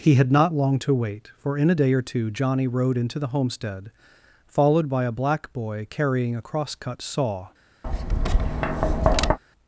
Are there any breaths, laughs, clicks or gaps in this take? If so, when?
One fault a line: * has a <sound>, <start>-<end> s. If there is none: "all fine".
* has a tap, 7.8-9.4 s